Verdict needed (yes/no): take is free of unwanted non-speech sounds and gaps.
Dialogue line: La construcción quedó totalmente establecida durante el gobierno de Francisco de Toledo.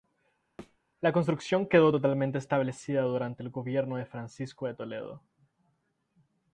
no